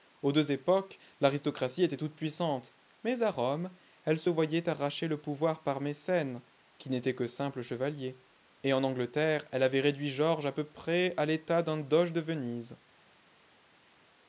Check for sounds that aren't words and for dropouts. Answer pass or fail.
pass